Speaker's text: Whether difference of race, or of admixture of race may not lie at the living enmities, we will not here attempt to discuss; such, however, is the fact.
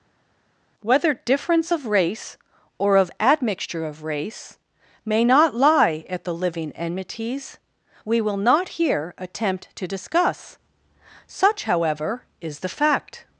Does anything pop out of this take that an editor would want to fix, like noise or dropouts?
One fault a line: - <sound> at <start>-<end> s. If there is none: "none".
none